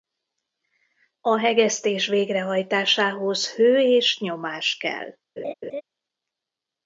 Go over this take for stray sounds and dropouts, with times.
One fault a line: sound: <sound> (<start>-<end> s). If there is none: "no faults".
sound: laugh (5.4-5.8 s)